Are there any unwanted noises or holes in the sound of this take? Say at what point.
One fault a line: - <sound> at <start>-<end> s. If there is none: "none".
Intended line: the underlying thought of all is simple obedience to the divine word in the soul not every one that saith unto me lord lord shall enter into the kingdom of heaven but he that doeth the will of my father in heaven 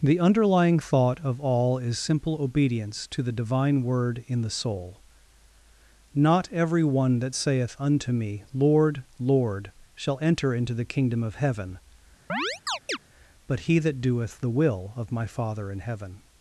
- chirp at 12.3-13.0 s